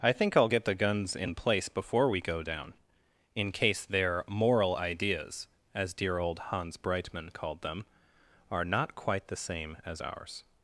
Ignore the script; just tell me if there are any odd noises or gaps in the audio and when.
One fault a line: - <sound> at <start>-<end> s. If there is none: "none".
none